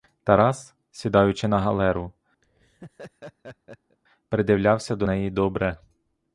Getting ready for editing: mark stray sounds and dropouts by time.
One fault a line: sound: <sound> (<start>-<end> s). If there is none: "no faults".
sound: laugh (2.4-4.0 s)